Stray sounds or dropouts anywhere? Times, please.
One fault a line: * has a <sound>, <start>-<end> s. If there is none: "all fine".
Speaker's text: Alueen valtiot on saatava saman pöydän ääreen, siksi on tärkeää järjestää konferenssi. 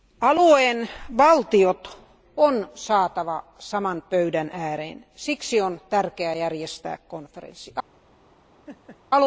* has a laugh, 8.7-9.0 s